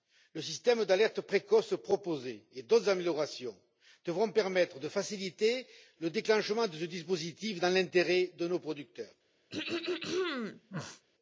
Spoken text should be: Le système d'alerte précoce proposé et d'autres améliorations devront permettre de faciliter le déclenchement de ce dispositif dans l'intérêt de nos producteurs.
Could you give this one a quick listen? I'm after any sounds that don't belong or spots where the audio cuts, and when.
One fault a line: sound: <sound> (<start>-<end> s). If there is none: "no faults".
sound: throat clearing (9.5-11.0 s)